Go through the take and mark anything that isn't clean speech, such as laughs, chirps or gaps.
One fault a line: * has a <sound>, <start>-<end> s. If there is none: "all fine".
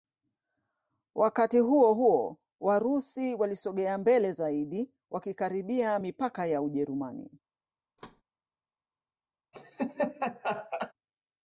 * has a thud, 8.0-8.2 s
* has a laugh, 9.5-10.9 s